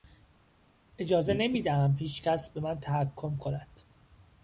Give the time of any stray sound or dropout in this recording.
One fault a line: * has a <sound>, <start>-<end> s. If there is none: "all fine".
all fine